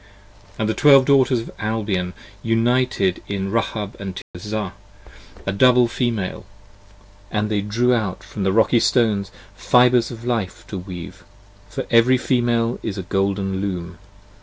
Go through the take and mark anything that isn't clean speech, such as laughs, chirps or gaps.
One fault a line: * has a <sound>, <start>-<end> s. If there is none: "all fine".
* has a dropout, 4.2-4.3 s